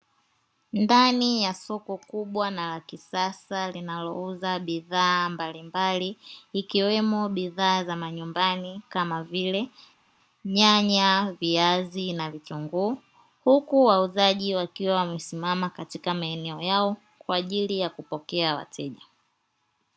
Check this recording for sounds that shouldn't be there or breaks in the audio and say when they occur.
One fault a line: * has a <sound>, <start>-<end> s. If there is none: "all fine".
all fine